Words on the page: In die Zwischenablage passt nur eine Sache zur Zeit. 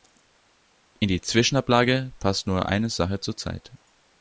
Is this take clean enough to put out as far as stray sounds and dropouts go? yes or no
yes